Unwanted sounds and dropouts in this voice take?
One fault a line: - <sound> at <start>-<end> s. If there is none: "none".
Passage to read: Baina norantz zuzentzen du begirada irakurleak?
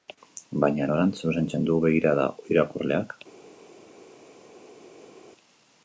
none